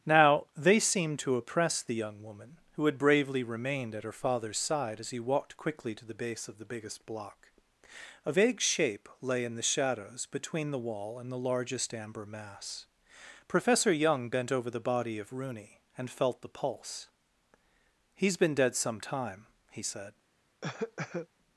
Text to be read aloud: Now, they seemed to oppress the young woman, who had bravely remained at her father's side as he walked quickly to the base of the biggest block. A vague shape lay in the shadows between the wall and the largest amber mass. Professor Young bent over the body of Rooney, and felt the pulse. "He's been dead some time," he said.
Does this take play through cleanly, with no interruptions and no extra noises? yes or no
no